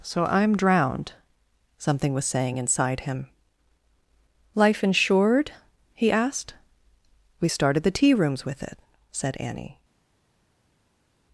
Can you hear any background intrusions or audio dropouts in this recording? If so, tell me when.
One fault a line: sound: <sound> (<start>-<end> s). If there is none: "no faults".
no faults